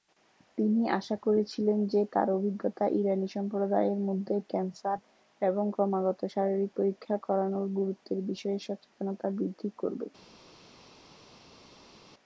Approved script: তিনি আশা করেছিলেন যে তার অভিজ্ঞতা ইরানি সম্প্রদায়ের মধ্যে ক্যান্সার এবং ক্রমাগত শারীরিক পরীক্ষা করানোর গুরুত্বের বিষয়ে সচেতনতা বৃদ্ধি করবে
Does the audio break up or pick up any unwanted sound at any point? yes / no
no